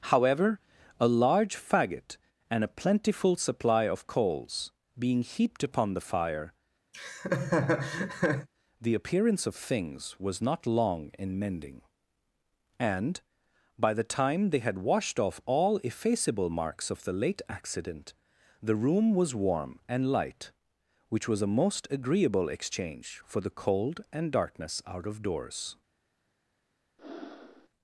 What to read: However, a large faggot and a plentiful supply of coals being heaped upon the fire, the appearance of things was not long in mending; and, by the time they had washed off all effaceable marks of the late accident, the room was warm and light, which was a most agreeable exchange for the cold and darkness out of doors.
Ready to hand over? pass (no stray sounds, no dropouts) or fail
fail